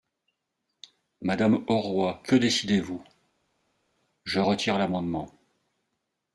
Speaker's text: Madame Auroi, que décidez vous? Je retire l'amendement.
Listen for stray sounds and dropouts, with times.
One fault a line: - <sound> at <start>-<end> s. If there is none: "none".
none